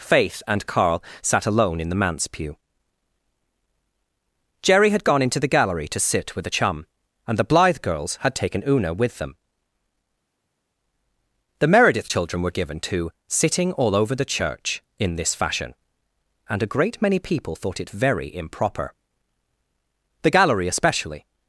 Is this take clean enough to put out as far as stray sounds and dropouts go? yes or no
yes